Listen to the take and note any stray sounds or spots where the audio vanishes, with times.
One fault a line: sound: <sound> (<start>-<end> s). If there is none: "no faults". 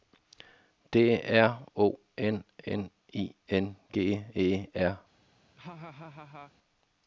sound: laugh (5.6-6.5 s)